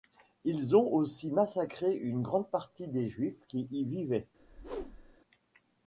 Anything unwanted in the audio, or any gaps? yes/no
yes